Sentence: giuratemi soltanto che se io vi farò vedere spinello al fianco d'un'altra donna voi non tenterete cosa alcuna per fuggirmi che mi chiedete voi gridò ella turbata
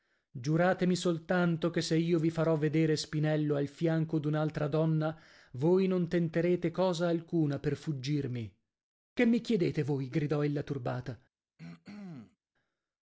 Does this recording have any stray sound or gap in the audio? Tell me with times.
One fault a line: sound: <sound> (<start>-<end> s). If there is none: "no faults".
sound: throat clearing (11.6-12.4 s)